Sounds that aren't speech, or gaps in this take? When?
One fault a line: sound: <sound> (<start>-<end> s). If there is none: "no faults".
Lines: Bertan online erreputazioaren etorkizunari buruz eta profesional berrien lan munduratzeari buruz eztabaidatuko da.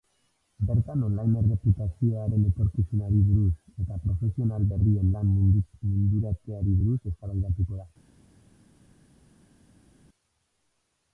no faults